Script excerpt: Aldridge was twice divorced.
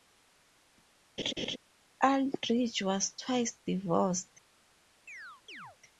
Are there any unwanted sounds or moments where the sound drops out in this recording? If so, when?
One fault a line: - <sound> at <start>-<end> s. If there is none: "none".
- laugh at 1.2-1.6 s
- chirp at 5.1-5.8 s